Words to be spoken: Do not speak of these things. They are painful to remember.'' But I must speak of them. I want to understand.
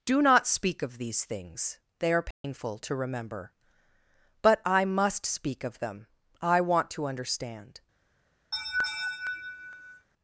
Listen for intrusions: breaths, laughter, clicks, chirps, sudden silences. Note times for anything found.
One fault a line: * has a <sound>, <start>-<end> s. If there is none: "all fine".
* has a dropout, 2.3-2.4 s
* has a laugh, 8.5-10.1 s